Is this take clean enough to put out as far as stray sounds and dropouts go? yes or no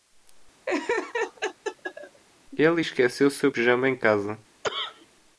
no